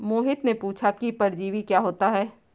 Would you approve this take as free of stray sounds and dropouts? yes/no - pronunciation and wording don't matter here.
yes